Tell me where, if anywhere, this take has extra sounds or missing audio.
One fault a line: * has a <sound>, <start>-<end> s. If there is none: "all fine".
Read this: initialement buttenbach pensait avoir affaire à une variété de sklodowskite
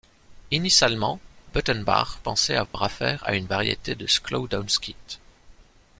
* has a dropout, 2.7-2.7 s